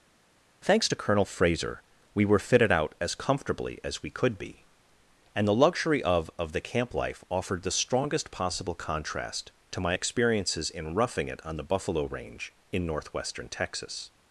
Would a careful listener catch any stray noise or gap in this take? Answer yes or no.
no